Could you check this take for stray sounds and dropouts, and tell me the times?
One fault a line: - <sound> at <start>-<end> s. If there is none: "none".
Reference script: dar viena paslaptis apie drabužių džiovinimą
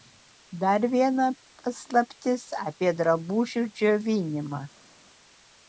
none